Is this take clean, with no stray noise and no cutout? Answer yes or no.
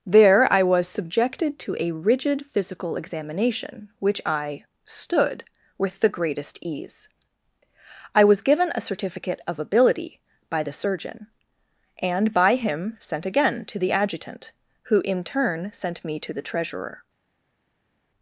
yes